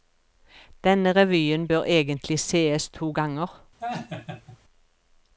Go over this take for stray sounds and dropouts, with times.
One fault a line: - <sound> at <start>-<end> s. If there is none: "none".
- laugh at 3.8-4.6 s